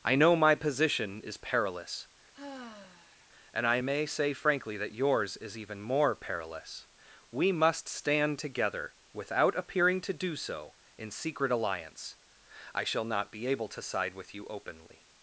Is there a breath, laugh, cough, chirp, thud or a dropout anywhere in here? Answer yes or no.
yes